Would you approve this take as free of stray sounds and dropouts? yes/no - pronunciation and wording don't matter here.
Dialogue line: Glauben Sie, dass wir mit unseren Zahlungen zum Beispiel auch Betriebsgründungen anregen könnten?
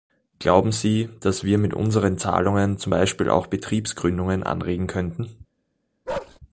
no